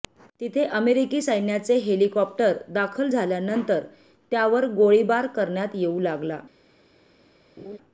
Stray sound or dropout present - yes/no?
yes